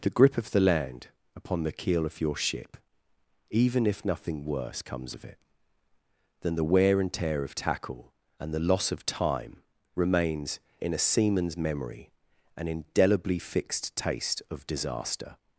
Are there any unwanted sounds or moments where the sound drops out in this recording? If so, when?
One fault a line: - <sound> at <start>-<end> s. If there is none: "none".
none